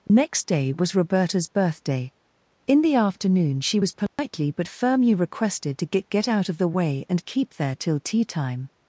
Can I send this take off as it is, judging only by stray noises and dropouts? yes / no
no